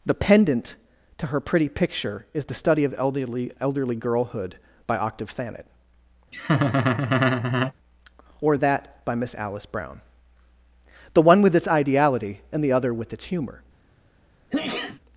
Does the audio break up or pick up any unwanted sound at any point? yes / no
yes